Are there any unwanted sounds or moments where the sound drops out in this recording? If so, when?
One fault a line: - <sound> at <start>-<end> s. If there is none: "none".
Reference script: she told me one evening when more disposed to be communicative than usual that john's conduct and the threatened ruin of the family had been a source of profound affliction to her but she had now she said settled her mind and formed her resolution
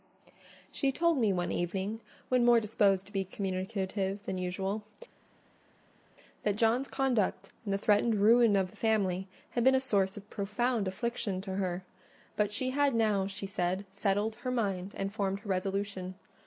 none